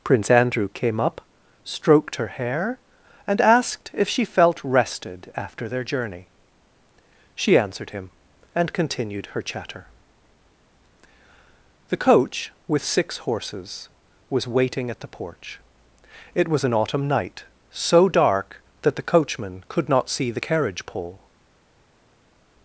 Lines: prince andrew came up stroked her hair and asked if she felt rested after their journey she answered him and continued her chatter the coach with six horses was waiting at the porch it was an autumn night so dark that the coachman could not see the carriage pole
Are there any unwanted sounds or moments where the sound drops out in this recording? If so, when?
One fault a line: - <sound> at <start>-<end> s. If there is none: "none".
none